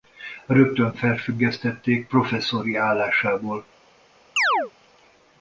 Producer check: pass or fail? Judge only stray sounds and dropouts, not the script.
fail